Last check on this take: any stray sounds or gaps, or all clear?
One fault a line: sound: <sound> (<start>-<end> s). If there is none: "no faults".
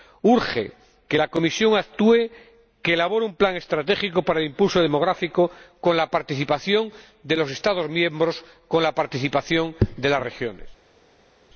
no faults